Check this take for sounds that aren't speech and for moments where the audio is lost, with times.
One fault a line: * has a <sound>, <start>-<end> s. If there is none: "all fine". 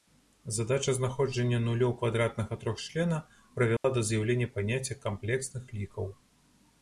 * has a dropout, 3.8-3.8 s